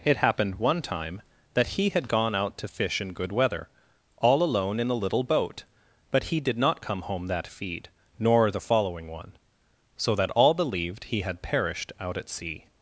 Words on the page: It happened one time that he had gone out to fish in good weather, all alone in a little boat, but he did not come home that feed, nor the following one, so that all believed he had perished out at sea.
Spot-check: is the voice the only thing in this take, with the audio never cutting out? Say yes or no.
yes